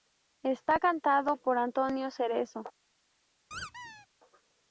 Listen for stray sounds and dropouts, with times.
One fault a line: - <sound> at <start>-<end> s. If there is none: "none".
- squeak at 3.5-4.1 s